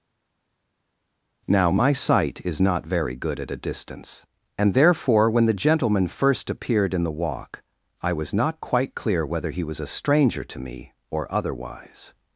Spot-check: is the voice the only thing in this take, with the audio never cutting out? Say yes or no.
yes